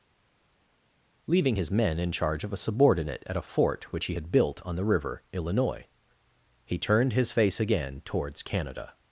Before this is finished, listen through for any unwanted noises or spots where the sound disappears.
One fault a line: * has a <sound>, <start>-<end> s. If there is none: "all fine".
all fine